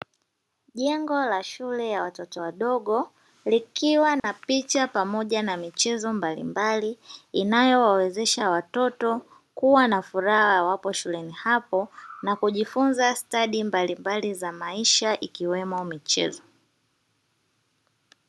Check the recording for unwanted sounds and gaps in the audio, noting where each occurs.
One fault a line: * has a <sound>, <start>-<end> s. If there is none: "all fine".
* has a dropout, 4.2-4.2 s